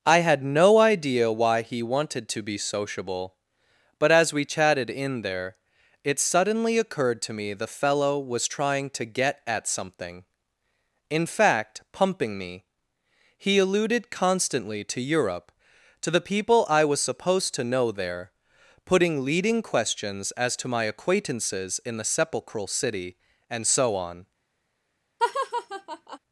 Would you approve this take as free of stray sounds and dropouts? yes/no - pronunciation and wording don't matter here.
no